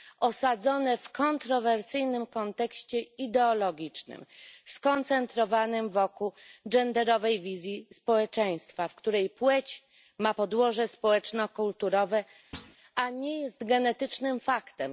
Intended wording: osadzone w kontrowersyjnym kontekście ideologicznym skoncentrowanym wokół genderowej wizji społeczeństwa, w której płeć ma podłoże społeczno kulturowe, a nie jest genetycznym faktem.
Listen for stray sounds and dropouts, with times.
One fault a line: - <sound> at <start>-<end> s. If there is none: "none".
- thud at 12.5-12.8 s